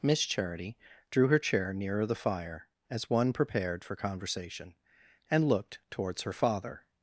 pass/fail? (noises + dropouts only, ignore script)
pass